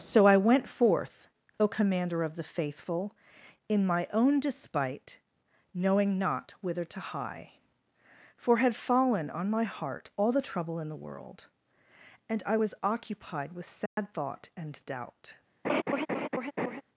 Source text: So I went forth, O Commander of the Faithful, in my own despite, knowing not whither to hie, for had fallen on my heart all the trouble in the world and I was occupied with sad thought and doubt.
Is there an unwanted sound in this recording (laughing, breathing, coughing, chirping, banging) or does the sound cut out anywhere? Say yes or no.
yes